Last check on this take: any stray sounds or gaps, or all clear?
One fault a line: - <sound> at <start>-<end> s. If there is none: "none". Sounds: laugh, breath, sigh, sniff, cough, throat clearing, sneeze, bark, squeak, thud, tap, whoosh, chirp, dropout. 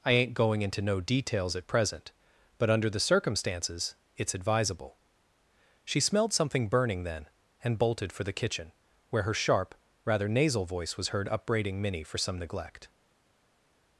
none